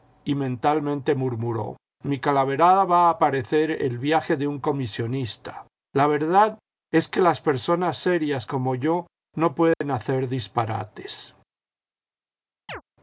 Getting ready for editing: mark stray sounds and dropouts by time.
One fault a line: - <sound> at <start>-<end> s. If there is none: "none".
- dropout at 9.7-9.8 s
- chirp at 12.7-12.8 s